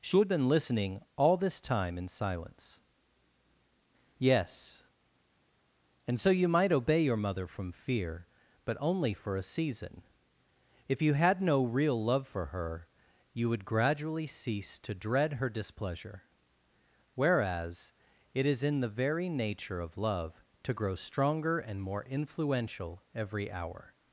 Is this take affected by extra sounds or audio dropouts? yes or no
no